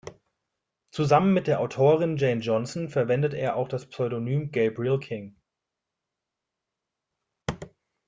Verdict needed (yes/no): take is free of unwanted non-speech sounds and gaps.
yes